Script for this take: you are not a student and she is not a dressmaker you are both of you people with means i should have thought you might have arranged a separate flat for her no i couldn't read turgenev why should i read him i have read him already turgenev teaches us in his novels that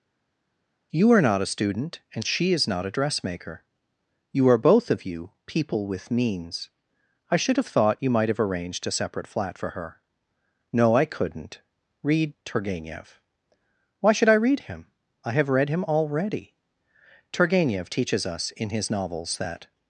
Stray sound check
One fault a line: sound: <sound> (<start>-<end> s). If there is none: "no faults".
no faults